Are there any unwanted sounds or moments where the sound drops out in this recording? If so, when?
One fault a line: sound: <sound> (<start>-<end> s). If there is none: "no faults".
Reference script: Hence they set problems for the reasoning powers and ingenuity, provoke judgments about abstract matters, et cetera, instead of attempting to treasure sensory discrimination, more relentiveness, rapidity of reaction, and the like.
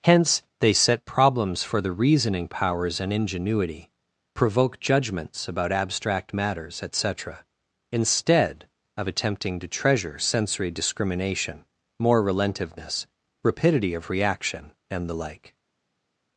no faults